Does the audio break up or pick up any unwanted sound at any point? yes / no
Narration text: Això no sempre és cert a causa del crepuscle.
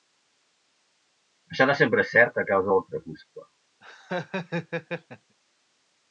yes